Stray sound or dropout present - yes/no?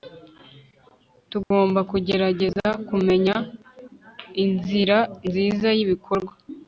yes